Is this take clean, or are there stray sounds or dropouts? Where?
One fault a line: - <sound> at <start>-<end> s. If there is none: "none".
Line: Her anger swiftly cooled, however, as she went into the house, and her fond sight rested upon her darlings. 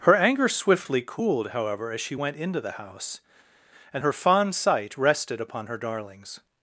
none